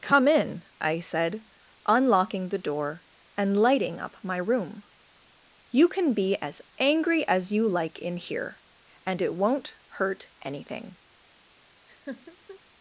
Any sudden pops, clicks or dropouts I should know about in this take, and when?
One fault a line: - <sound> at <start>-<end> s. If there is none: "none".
- laugh at 11.9-12.6 s